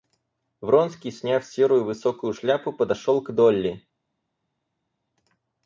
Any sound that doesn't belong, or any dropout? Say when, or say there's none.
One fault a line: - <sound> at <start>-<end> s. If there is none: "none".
none